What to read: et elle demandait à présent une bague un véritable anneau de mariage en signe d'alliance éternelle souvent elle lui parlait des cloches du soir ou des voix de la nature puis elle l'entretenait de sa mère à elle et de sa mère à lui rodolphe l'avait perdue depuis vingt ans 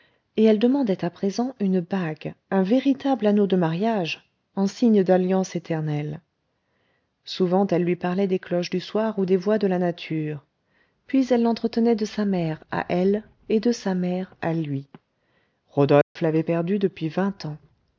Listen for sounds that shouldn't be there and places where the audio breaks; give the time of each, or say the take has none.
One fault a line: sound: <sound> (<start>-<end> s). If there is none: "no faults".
sound: dropout (16.0-16.2 s)